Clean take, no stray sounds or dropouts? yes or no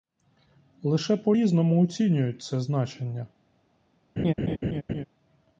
no